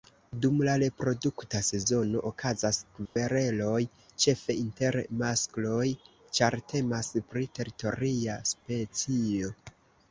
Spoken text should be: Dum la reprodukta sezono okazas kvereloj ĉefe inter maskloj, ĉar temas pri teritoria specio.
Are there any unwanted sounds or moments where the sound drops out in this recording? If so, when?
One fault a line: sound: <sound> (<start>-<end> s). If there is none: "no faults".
sound: dropout (3.1-3.2 s)